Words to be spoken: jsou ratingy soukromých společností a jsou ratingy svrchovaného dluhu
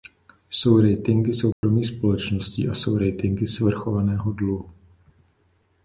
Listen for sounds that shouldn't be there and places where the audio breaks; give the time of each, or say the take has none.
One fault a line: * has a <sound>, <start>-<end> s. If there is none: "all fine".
* has a dropout, 1.5-1.6 s